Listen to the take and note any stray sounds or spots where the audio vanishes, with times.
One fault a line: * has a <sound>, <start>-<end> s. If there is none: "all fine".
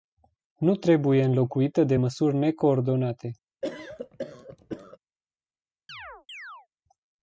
* has a cough, 3.6-5.0 s
* has a chirp, 5.9-6.7 s